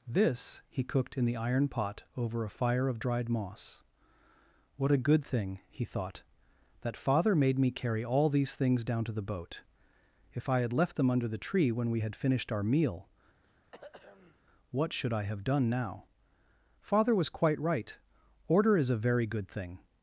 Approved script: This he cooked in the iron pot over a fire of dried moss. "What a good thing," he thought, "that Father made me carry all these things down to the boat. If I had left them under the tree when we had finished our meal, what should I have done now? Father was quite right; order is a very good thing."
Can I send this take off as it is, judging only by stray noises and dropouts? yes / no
no